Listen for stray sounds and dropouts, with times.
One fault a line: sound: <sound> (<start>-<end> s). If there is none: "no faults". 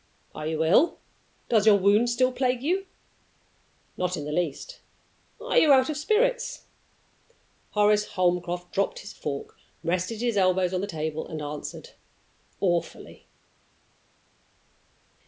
no faults